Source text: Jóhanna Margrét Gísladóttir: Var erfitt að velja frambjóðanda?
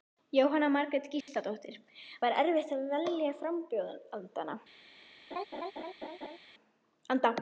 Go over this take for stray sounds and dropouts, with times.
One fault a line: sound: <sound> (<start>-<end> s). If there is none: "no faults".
sound: dropout (1.2-1.3 s)
sound: laugh (5.3-6.4 s)